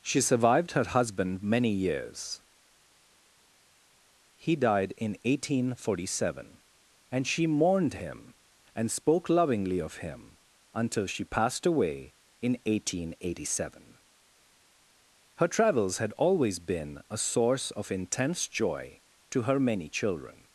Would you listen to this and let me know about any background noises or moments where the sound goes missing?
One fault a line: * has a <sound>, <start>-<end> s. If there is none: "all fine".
all fine